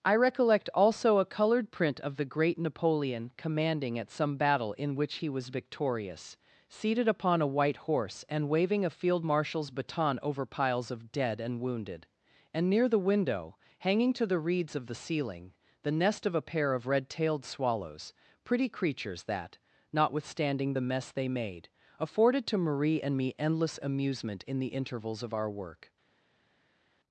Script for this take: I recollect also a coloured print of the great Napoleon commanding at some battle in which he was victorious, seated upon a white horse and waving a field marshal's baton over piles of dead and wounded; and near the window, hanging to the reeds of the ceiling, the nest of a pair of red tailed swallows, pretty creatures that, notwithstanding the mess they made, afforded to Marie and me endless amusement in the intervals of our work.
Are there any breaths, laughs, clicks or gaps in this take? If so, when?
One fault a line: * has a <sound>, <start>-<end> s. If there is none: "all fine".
all fine